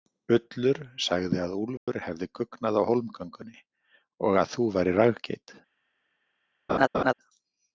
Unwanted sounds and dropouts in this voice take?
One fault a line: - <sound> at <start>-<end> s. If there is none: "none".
- dropout at 1.8-1.9 s
- laugh at 6.7-7.1 s